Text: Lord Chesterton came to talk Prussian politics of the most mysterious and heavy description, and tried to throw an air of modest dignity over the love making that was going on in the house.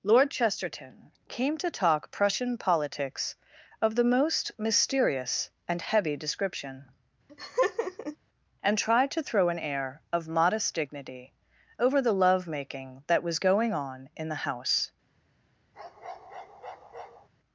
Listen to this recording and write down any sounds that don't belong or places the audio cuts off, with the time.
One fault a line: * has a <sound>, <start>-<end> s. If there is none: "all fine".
* has a laugh, 7.3-8.2 s
* has a bark, 15.7-17.3 s